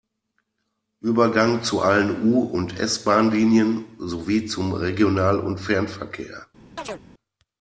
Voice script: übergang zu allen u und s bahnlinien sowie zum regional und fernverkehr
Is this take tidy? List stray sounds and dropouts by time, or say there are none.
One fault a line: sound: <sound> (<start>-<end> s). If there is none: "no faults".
sound: chirp (6.8-7.0 s)